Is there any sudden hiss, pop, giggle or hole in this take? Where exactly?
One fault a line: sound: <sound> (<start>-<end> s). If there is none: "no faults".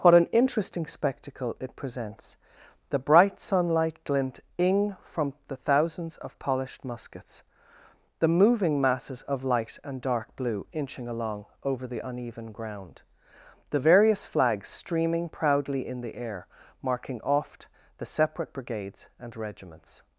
no faults